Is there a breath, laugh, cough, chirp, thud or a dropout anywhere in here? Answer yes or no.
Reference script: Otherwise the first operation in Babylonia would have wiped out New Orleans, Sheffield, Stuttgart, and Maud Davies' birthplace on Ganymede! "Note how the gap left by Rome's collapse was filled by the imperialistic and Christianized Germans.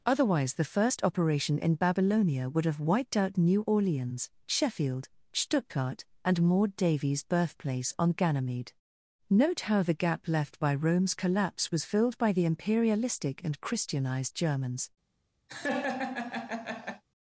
yes